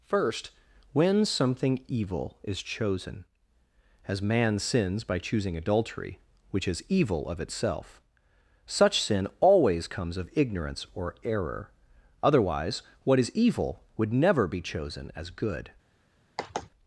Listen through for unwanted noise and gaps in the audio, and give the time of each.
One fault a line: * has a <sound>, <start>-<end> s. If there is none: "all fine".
* has a sigh, 16.4-16.7 s